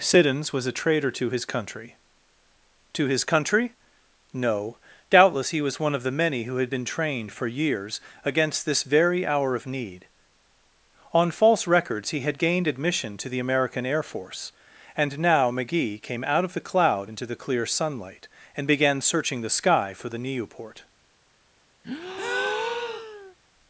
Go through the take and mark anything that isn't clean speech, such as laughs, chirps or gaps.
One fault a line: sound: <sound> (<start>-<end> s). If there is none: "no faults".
sound: breath (21.8-23.3 s)